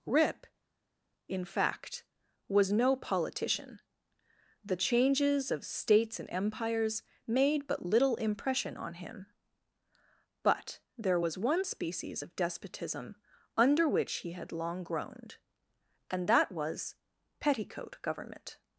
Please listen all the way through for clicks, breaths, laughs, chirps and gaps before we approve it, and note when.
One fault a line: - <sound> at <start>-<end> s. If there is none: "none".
none